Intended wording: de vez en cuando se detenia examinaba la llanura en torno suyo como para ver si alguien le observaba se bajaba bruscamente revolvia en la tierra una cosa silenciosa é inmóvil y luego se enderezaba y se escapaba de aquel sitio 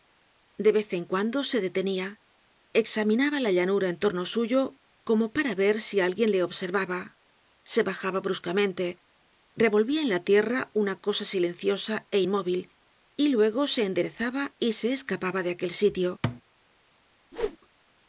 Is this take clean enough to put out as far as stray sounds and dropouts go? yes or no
no